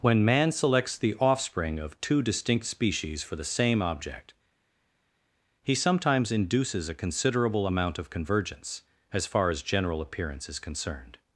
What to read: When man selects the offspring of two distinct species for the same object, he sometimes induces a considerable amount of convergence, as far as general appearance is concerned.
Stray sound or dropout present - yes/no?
no